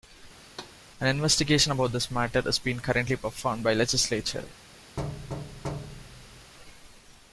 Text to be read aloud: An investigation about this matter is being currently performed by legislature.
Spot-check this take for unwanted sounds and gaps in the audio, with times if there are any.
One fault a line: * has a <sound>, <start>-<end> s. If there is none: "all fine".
* has a thud, 0.4-0.8 s
* has a thud, 5.0-6.5 s